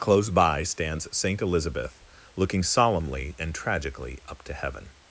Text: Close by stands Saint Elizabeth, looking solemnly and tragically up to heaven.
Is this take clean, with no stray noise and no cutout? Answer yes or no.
yes